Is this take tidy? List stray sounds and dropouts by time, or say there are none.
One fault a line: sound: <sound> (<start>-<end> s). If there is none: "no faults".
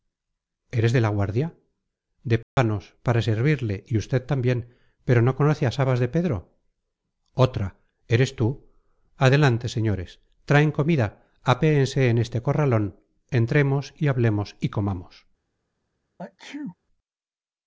sound: dropout (2.4-2.6 s)
sound: sneeze (16.2-16.8 s)